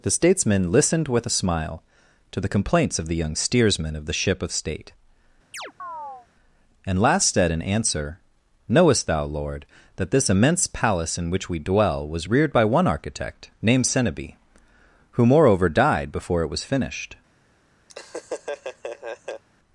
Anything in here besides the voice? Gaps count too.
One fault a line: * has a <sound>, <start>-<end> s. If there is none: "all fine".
* has a chirp, 5.5-6.3 s
* has a laugh, 17.9-19.4 s